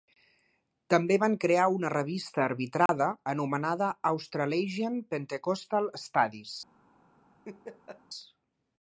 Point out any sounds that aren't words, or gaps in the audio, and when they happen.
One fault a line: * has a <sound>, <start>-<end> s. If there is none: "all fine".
* has a dropout, 2.9-2.9 s
* has a laugh, 7.4-8.0 s